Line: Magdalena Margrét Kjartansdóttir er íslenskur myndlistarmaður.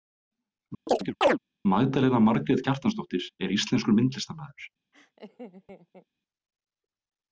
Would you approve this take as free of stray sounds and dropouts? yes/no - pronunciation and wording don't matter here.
no